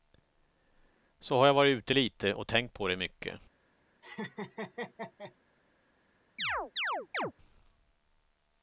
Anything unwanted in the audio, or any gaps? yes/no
yes